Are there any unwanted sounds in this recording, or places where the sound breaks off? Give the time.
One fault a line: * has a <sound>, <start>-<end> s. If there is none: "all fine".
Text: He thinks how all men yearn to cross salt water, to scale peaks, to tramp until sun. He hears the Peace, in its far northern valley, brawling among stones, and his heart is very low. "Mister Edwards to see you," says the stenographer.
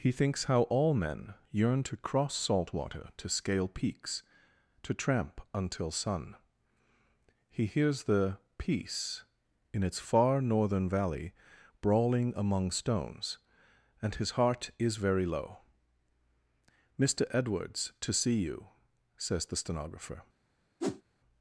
* has a whoosh, 20.8-21.0 s